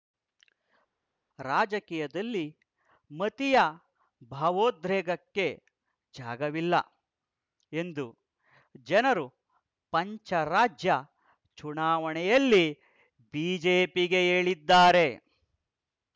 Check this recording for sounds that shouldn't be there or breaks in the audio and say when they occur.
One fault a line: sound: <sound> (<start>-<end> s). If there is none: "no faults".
no faults